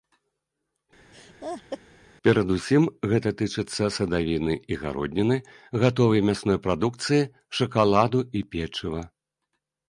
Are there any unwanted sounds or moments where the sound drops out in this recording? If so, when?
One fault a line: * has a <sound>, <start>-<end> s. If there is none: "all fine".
* has a laugh, 1.1-1.8 s